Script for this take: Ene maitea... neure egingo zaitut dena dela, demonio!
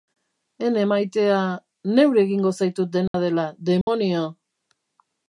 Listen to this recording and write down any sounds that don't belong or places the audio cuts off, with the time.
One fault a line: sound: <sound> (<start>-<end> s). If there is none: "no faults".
sound: dropout (3.1-3.1 s)
sound: dropout (3.8-3.9 s)